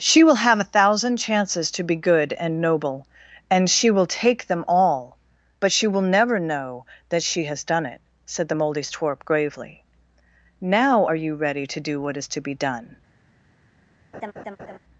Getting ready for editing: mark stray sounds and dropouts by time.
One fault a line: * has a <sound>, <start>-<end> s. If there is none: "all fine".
* has a laugh, 14.1-14.8 s